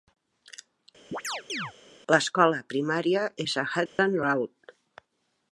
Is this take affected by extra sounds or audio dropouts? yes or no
yes